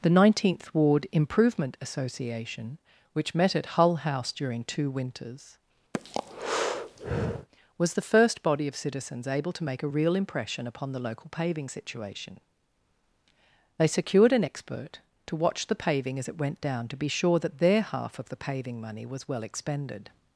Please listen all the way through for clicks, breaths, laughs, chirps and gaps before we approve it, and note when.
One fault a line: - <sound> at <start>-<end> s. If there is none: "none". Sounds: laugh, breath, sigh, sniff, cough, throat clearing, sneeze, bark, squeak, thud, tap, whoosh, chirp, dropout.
- breath at 5.9-7.5 s